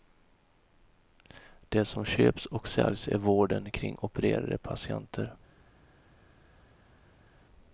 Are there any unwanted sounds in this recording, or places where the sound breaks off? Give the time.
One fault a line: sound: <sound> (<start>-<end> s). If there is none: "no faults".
no faults